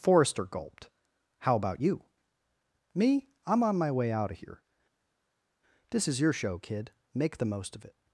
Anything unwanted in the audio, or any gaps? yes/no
no